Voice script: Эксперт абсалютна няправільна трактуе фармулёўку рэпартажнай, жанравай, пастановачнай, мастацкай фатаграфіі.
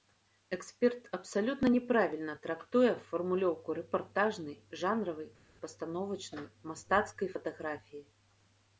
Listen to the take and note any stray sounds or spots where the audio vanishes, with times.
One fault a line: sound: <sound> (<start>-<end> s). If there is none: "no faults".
no faults